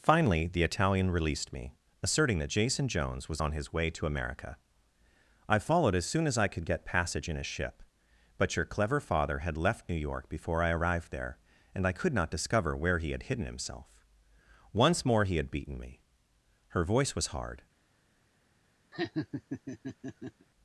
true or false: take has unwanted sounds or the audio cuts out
true